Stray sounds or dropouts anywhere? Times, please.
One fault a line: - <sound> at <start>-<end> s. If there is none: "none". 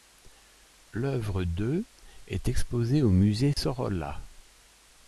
- dropout at 3.5-3.6 s